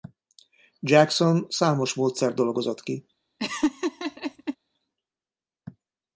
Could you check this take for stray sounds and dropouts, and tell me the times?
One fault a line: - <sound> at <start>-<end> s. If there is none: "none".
- laugh at 3.4-4.6 s